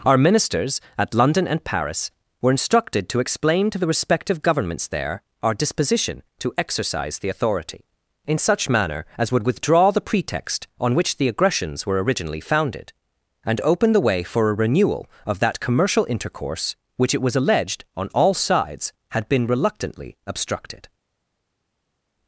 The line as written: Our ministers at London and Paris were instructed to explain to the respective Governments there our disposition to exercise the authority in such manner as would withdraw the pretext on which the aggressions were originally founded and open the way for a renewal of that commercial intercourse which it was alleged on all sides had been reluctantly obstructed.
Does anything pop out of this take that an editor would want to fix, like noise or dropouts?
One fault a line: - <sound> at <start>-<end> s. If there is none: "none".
none